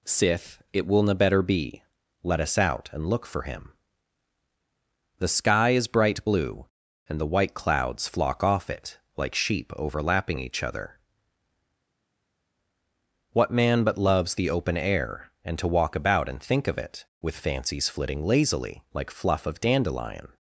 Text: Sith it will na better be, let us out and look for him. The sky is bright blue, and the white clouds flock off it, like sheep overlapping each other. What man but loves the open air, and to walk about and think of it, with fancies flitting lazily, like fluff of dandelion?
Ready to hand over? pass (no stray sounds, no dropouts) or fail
pass